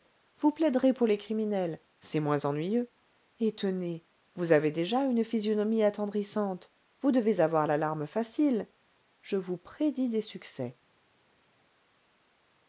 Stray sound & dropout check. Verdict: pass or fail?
pass